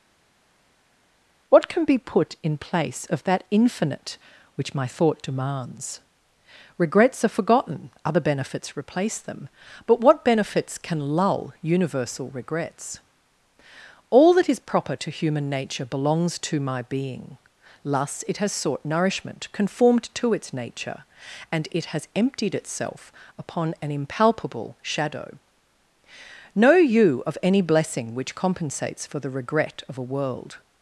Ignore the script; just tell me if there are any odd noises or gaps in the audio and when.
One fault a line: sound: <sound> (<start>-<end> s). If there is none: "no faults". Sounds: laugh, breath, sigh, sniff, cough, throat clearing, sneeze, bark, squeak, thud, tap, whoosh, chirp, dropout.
no faults